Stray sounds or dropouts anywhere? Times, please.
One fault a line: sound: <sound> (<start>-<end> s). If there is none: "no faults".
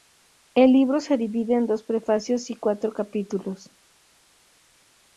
no faults